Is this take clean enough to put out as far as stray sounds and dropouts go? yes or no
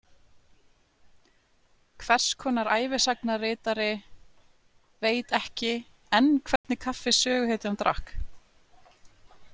no